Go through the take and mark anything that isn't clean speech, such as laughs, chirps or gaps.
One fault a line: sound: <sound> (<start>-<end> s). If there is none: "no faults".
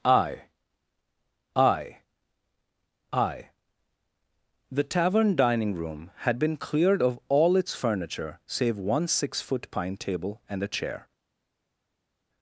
no faults